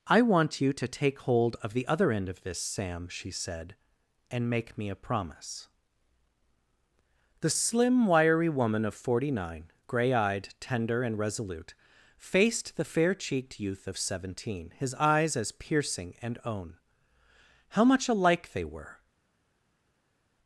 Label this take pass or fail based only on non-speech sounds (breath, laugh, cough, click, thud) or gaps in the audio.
pass